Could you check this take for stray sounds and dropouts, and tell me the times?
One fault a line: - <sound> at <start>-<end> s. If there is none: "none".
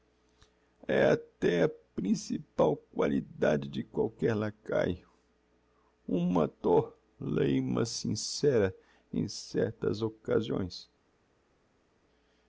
none